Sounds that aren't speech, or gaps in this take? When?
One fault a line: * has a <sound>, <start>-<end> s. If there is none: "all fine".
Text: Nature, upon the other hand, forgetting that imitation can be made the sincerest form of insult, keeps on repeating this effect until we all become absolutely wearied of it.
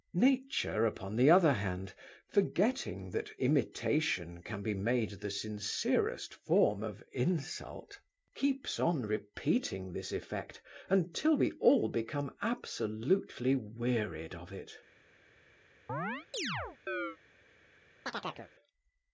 * has a chirp, 15.9-17.2 s
* has a chirp, 18.1-18.5 s